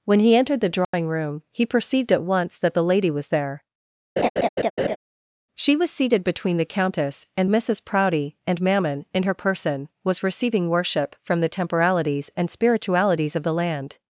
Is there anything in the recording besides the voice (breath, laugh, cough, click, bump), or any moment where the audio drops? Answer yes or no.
yes